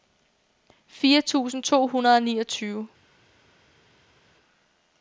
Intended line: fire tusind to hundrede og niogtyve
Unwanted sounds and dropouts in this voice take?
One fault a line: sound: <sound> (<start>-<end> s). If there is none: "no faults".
no faults